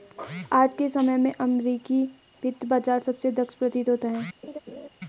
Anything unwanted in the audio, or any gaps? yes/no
yes